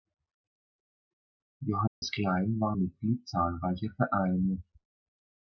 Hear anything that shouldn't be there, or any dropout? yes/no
yes